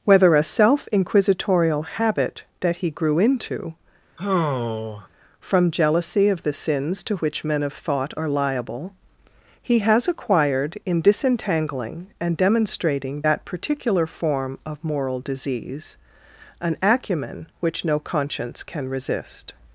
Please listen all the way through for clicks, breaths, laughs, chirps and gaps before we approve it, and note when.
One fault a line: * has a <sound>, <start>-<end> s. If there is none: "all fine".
* has a sigh, 4.2-5.1 s